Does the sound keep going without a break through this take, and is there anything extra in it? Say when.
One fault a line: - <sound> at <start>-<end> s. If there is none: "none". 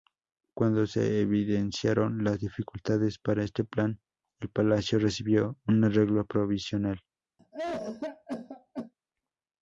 - cough at 7.4-8.9 s